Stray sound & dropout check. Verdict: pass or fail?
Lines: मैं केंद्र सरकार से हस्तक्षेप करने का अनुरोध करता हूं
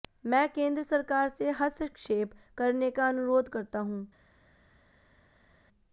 pass